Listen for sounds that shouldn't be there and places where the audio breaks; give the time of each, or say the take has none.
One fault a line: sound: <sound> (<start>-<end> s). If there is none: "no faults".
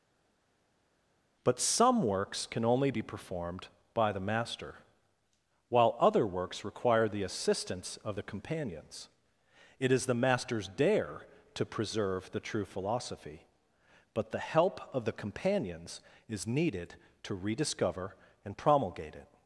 no faults